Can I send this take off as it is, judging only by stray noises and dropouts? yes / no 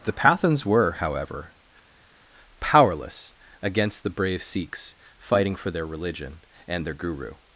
yes